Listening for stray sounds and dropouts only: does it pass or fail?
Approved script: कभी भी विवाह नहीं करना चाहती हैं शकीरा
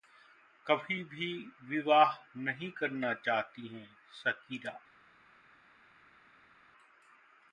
pass